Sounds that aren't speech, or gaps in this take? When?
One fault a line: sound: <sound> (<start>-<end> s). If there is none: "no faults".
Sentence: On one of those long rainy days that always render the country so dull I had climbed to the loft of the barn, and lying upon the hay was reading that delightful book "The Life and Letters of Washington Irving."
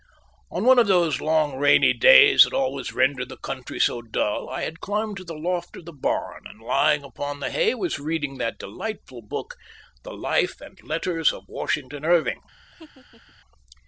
sound: laugh (12.7-13.3 s)